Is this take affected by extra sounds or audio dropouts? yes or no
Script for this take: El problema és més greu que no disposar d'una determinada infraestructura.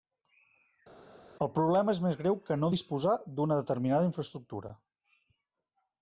no